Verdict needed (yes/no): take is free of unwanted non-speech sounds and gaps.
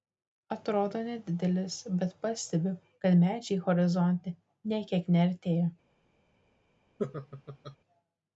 no